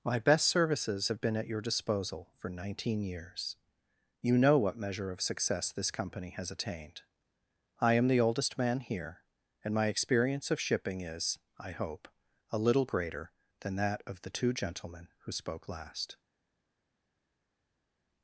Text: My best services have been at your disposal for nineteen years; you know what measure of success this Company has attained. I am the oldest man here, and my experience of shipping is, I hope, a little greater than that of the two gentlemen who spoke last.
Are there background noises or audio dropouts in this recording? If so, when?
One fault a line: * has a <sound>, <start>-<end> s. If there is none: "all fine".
all fine